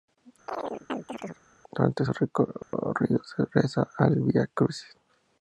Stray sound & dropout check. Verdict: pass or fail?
fail